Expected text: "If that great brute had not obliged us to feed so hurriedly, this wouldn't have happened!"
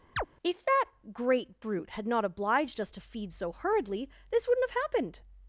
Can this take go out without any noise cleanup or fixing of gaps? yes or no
no